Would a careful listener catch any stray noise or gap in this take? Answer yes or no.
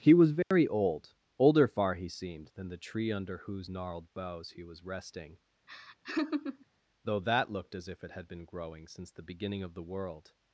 yes